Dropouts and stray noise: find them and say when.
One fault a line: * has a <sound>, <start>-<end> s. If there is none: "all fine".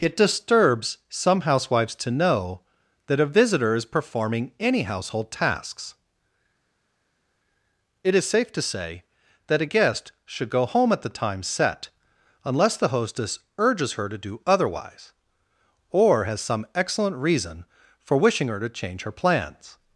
all fine